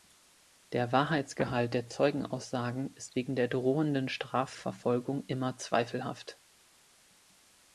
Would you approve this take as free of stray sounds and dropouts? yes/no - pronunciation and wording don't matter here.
yes